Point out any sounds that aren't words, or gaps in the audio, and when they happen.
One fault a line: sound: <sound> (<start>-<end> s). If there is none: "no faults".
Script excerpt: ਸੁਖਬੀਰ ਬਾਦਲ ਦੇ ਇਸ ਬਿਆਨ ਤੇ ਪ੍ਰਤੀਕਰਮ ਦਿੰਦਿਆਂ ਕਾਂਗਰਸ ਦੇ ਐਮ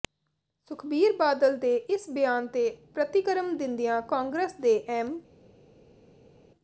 no faults